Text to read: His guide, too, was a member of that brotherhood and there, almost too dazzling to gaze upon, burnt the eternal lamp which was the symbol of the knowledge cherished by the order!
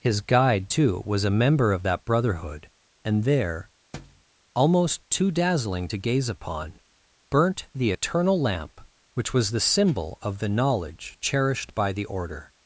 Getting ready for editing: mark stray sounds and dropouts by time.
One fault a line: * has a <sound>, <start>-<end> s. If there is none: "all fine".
* has a thud, 3.9-4.2 s